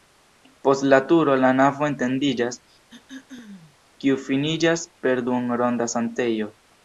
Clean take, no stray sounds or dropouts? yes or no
no